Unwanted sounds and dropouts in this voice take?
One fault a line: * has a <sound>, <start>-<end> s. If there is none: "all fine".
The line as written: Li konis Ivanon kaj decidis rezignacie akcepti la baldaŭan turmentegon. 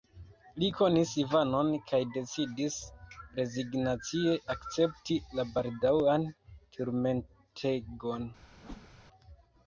* has a whoosh, 8.5-8.9 s